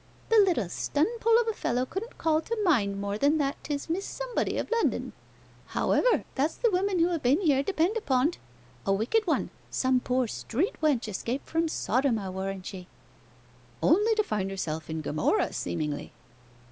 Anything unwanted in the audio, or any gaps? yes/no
no